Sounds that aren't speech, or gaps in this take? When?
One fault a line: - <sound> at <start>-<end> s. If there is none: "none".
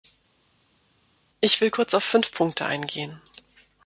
none